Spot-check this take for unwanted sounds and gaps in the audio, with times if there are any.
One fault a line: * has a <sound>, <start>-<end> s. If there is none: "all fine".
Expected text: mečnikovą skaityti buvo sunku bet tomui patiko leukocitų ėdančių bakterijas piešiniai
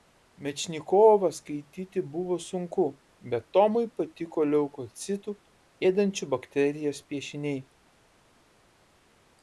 all fine